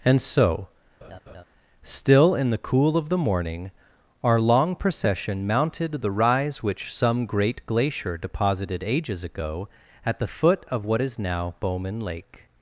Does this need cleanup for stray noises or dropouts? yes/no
yes